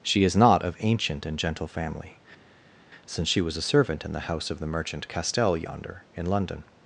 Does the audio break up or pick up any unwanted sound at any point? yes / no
no